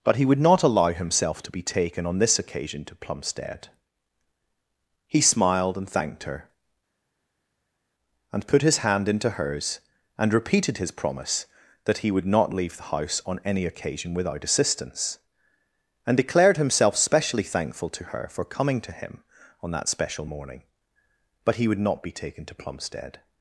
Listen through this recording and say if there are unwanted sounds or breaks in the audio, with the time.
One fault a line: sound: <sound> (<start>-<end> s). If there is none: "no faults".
no faults